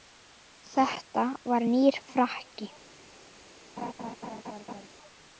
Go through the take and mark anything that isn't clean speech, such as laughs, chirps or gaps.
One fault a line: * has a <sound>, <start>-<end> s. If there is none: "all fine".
* has a laugh, 3.8-4.9 s